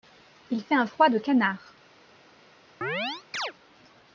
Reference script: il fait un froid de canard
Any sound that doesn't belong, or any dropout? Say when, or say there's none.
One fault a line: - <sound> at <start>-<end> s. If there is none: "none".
- chirp at 2.8-3.5 s